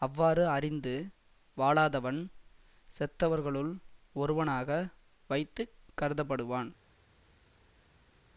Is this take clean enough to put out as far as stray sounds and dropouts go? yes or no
yes